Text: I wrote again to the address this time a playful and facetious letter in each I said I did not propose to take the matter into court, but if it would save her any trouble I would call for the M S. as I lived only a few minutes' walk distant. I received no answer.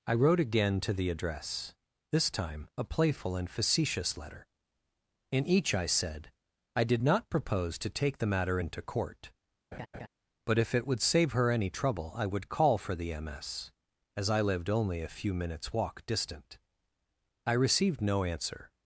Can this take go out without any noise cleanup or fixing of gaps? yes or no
no